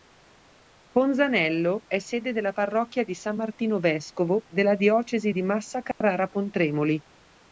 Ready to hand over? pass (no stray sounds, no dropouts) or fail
fail